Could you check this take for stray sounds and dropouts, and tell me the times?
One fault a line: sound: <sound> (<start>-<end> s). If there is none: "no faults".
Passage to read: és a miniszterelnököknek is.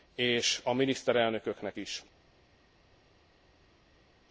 no faults